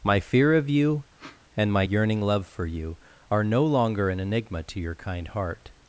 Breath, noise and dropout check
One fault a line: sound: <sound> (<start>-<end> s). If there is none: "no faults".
sound: sniff (1.2-1.4 s)